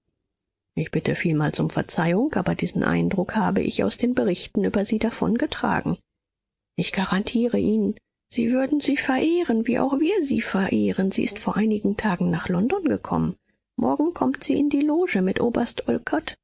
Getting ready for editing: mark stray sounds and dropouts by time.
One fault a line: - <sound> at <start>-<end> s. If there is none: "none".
none